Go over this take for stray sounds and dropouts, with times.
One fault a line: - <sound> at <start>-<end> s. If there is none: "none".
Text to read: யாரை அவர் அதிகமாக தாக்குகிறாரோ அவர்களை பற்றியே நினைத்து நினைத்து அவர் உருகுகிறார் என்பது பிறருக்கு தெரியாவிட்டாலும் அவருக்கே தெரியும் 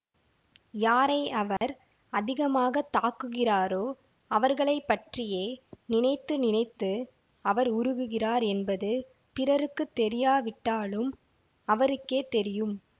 - dropout at 1.6-1.6 s